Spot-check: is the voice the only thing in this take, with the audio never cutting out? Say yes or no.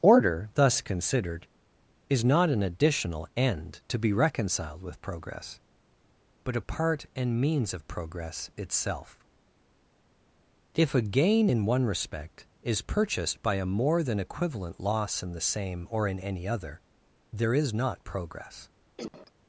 no